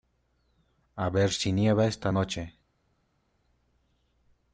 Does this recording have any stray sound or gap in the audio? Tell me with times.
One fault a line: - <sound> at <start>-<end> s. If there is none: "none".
none